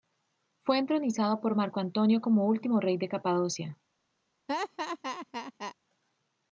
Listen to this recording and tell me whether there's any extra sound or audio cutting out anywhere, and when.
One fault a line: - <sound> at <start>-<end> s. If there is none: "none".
- laugh at 4.5-5.8 s